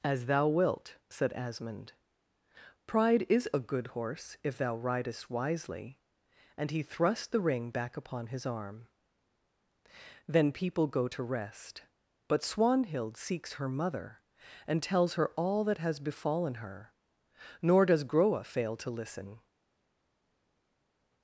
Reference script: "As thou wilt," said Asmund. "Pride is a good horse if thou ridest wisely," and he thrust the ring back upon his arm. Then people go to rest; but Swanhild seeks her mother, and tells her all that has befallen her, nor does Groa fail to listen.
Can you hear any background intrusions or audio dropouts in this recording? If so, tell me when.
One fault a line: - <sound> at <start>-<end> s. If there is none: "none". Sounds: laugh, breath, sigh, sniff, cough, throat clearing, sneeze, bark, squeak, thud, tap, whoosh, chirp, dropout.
none